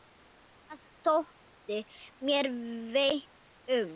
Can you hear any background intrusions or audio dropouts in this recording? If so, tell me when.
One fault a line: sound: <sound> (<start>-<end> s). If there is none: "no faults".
no faults